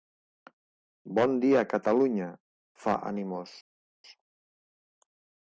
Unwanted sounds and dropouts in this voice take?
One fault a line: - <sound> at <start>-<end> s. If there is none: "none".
none